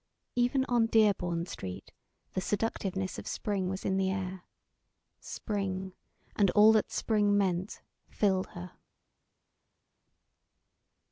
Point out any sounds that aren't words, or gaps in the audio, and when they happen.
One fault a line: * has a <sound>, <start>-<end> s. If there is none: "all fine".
all fine